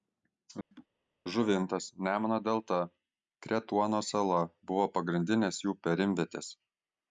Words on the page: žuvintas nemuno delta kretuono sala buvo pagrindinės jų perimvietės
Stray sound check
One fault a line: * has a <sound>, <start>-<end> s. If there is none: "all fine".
* has a laugh, 0.7-0.9 s